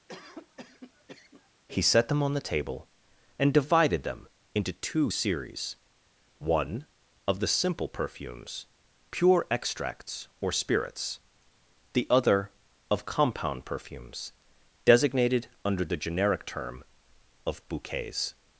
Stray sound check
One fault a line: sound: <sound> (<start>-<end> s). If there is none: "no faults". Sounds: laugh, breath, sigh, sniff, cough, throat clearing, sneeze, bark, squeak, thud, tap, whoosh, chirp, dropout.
sound: cough (0.1-1.5 s)